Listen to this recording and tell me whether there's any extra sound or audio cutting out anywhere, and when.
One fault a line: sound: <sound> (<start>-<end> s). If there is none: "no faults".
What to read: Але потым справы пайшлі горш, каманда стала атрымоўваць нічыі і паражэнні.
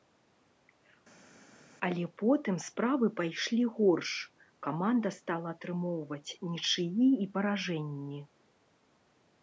no faults